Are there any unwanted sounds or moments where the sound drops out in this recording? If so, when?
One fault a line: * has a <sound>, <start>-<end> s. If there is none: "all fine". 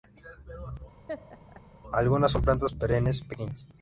* has a laugh, 1.1-1.6 s